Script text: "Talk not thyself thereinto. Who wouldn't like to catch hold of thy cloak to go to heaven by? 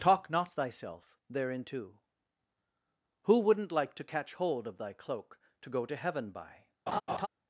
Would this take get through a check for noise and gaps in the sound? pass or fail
fail